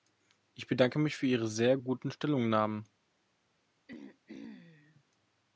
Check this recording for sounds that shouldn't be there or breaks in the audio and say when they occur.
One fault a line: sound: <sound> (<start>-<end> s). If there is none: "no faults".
sound: throat clearing (3.9-5.0 s)